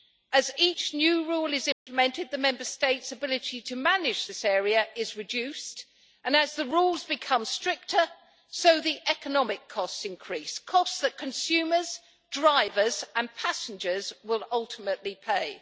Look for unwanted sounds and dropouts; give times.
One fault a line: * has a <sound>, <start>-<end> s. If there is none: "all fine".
* has a dropout, 1.7-1.9 s